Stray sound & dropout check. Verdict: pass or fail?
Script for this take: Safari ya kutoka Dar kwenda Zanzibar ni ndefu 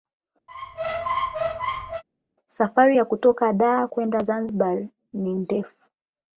fail